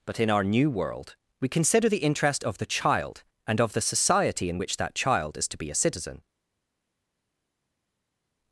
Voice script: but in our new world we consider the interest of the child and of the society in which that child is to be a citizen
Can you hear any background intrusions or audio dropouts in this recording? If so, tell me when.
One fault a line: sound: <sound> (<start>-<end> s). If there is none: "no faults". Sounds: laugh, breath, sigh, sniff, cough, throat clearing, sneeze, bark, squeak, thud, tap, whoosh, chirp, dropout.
no faults